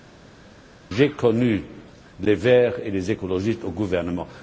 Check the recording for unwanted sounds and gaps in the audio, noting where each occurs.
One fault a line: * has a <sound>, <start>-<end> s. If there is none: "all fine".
all fine